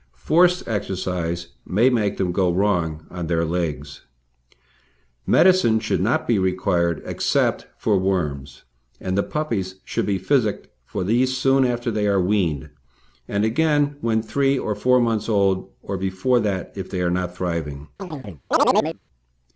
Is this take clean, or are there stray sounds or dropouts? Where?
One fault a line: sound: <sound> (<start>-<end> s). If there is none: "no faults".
sound: chirp (18.0-19.0 s)